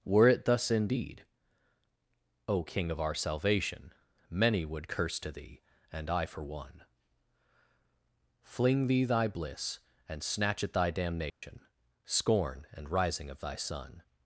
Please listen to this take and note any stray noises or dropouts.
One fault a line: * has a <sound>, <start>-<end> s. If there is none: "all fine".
* has a dropout, 11.3-11.4 s